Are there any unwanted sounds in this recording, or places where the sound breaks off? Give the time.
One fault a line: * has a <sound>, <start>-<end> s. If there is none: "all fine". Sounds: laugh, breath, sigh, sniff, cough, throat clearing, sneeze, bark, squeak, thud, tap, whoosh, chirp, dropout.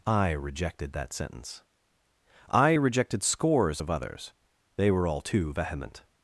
all fine